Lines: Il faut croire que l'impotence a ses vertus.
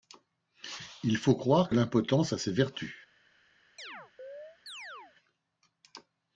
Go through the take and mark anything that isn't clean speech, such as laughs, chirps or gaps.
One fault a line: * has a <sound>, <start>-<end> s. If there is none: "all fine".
* has a chirp, 3.8-5.2 s